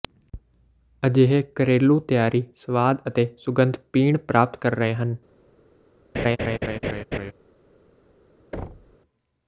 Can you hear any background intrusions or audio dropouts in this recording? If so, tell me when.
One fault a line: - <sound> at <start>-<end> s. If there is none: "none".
- laugh at 6.1-7.3 s
- thud at 8.5-9.0 s